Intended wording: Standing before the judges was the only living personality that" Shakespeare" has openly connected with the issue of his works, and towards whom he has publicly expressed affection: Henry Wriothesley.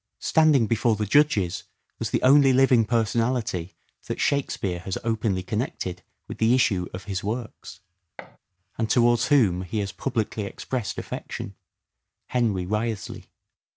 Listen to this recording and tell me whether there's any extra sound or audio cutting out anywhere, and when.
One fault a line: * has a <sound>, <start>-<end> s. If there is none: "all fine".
* has a thud, 8.2-8.4 s